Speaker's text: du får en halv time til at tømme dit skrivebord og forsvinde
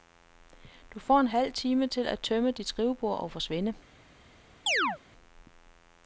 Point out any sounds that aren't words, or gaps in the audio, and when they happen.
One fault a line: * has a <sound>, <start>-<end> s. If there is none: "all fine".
* has a chirp, 4.7-5.0 s